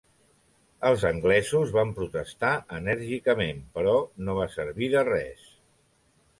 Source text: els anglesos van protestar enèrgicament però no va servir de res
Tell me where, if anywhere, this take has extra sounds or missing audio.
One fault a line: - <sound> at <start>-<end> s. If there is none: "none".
none